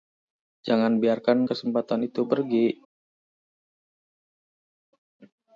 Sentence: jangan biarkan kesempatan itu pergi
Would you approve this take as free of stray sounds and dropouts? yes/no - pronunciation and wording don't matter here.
yes